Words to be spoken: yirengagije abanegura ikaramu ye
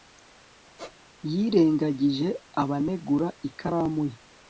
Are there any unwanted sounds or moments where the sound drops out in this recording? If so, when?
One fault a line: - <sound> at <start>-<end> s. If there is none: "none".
- squeak at 0.8-1.0 s